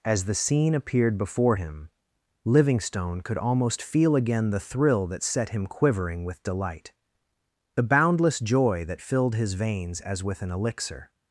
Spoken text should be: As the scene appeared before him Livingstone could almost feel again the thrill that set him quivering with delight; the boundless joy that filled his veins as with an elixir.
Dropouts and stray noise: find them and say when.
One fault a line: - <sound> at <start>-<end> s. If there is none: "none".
none